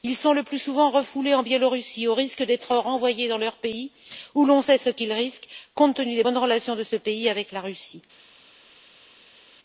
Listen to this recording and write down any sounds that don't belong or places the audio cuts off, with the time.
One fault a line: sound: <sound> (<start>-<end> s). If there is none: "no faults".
no faults